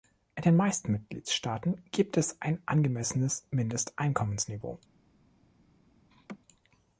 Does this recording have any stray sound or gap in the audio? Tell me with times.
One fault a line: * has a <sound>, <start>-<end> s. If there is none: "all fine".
* has a laugh, 6.1-6.4 s